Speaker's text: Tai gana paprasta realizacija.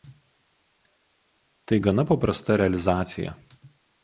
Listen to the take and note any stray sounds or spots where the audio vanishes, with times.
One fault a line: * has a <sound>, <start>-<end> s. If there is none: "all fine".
all fine